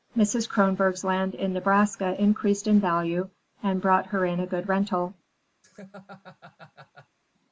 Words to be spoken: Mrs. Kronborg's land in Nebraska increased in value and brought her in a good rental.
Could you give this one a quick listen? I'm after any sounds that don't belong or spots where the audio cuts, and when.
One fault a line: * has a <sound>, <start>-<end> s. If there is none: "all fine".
* has a laugh, 5.6-7.2 s